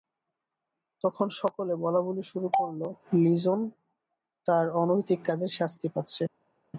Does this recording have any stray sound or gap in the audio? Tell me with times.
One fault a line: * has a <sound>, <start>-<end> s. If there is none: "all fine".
all fine